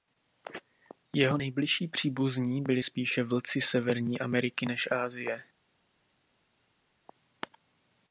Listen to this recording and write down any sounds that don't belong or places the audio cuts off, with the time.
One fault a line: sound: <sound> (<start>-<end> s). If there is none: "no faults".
no faults